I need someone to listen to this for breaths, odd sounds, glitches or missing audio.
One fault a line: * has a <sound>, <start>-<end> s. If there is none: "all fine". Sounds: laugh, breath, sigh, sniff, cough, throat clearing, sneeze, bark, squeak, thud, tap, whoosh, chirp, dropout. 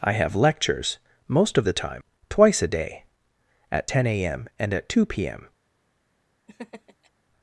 * has a laugh, 6.5-7.1 s